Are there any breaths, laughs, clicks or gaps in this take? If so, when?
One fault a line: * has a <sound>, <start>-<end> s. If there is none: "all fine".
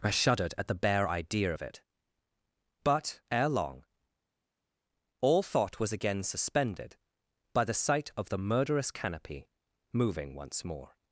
all fine